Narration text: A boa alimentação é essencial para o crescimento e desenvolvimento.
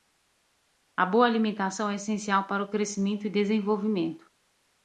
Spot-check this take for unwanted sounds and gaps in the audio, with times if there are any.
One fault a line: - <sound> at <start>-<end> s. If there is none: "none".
none